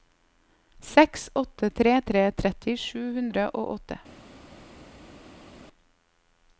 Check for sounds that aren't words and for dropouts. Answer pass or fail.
pass